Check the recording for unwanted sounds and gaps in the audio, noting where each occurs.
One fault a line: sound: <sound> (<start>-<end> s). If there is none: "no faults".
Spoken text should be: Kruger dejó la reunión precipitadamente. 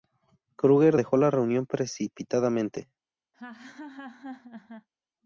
sound: laugh (3.3-4.9 s)